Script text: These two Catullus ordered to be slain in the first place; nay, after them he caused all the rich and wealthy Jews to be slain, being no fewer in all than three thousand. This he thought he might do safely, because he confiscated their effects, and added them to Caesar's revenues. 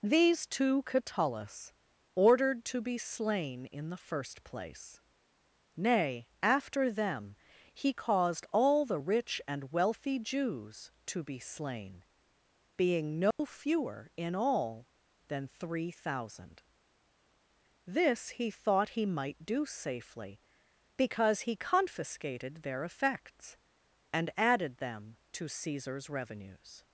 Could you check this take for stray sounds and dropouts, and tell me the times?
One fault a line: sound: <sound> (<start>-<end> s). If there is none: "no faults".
sound: dropout (13.3-13.4 s)